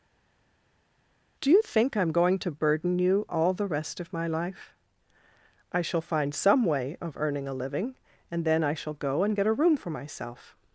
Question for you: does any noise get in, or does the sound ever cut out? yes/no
no